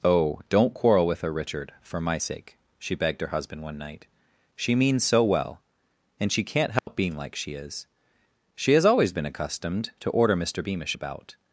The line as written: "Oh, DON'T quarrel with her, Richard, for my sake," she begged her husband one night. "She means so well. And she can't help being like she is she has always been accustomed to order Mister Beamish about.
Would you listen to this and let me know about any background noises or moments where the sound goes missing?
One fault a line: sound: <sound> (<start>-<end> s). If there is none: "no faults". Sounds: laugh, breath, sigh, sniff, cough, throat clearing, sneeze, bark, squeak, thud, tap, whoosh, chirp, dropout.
sound: dropout (6.8-6.9 s)